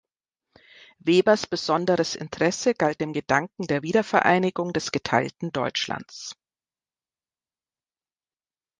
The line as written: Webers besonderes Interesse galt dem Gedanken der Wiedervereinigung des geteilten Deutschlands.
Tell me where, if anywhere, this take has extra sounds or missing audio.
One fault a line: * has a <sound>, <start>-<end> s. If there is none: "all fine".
all fine